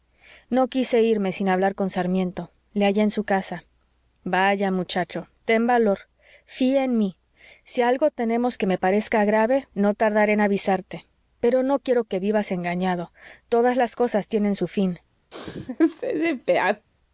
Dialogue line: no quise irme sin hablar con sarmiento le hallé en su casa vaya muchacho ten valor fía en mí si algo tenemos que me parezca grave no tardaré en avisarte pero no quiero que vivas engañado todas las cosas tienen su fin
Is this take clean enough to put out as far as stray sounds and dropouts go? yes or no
no